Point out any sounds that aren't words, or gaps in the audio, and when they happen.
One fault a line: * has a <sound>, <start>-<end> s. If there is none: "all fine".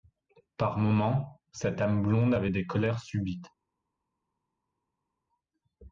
all fine